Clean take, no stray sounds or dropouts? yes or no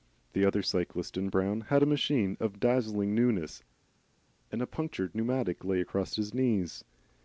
yes